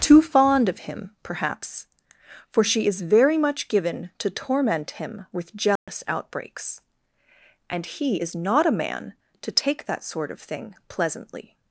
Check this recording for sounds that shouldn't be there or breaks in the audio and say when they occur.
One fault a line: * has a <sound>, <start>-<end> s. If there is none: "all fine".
* has a dropout, 5.8-5.9 s